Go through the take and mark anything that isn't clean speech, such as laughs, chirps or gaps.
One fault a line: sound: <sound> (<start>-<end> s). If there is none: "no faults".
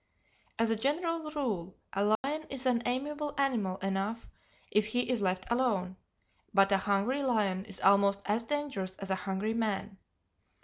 sound: dropout (2.1-2.2 s)